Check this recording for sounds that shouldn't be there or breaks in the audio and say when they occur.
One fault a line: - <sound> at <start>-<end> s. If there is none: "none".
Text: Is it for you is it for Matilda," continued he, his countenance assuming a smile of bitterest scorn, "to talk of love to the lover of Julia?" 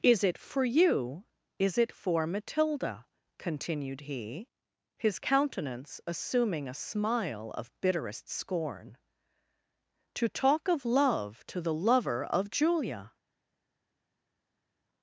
none